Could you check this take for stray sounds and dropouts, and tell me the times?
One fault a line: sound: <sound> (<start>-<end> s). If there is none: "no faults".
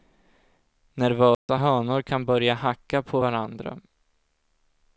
sound: dropout (1.3-1.5 s)